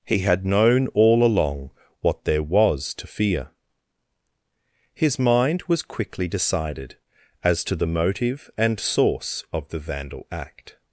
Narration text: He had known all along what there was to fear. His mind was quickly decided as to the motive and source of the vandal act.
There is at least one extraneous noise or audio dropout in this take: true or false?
false